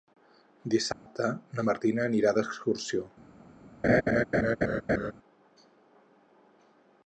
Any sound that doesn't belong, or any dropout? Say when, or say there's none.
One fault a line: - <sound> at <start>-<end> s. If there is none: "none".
- dropout at 0.9-1.1 s
- laugh at 3.8-5.1 s